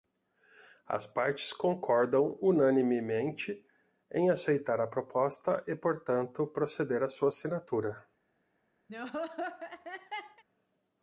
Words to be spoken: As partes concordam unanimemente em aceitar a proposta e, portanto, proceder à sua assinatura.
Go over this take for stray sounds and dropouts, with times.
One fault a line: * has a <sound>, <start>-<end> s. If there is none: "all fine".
* has a laugh, 8.9-10.4 s